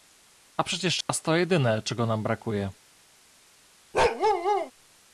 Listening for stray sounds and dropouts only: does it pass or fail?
fail